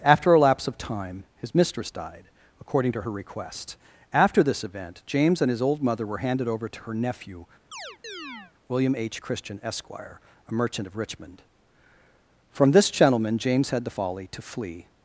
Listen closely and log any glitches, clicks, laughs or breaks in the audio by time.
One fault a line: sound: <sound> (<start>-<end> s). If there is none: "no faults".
sound: chirp (7.7-8.5 s)